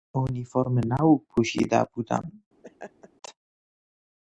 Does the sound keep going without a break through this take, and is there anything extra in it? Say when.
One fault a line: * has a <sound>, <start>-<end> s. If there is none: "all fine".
* has a laugh, 2.6-3.1 s